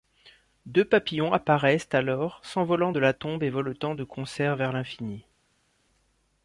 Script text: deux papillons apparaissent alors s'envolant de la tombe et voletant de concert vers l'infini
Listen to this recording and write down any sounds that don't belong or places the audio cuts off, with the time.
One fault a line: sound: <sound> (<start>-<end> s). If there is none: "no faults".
no faults